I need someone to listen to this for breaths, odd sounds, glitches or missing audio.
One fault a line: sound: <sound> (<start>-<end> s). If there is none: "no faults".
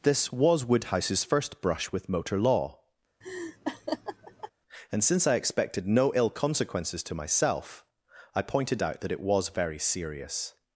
sound: laugh (3.2-4.5 s)